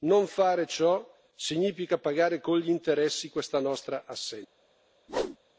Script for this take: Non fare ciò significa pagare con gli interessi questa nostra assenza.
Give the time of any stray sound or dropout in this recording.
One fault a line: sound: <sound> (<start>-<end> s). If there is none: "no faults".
sound: whoosh (5.1-5.4 s)